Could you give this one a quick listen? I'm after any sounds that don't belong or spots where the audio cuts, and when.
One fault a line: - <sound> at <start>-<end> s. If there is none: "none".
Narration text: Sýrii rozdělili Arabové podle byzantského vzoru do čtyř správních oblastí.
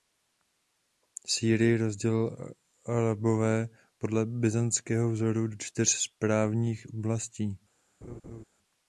- laugh at 8.0-8.4 s